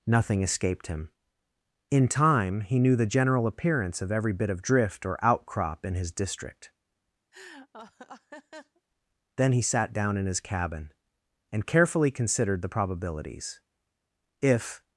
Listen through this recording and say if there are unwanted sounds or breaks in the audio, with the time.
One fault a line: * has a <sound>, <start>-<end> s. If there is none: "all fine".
* has a laugh, 7.3-8.8 s